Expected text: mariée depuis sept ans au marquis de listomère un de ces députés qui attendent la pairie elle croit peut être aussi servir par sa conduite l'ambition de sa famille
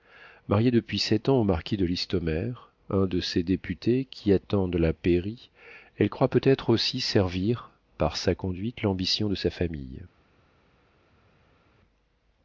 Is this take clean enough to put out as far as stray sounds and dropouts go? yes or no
yes